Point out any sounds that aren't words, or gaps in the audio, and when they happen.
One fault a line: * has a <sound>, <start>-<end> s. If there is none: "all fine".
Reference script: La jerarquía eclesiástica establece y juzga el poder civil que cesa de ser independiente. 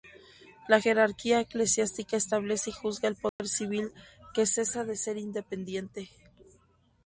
* has a dropout, 3.3-3.4 s